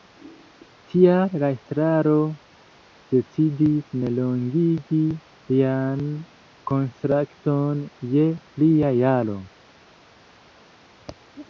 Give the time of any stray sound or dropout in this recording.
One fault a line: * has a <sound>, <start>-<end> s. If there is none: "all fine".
all fine